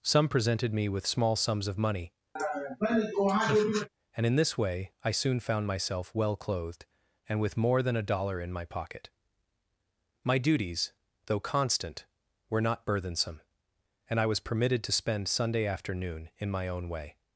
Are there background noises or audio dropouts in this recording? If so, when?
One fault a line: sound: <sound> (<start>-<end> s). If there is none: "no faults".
sound: laugh (2.4-3.9 s)